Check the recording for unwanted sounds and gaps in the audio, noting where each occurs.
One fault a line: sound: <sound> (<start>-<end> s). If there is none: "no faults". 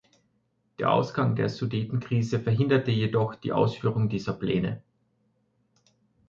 no faults